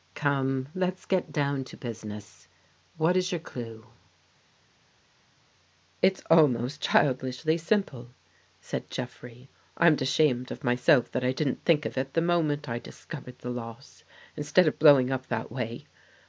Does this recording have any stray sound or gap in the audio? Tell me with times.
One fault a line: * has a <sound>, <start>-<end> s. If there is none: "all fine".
all fine